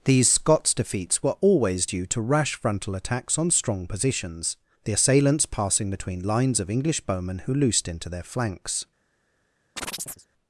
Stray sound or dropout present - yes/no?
yes